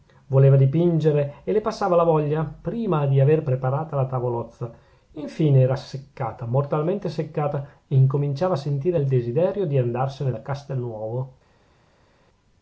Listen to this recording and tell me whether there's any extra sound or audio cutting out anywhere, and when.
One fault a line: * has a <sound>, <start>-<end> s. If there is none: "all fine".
all fine